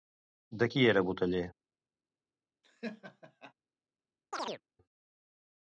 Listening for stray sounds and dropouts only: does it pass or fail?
fail